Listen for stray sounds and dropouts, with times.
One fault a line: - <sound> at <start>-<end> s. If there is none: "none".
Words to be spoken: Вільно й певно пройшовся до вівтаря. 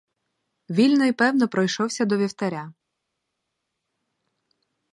none